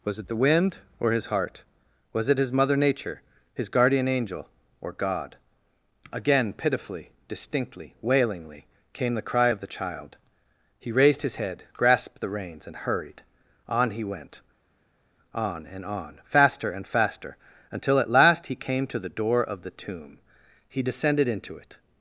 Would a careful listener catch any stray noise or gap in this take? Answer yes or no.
no